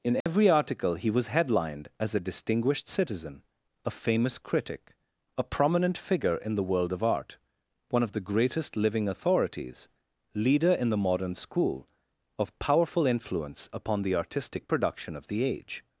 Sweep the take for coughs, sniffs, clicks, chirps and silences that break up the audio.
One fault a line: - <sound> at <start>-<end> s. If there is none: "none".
- dropout at 0.2-0.3 s